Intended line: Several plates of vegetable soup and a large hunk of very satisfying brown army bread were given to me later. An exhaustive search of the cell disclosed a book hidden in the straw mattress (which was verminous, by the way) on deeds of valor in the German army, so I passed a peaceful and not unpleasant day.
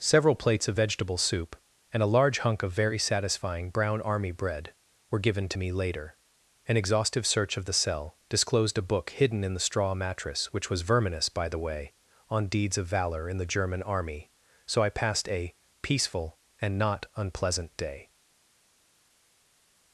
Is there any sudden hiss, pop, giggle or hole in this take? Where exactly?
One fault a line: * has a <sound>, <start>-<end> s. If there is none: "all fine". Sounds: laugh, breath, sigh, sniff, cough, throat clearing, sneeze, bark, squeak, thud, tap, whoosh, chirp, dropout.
all fine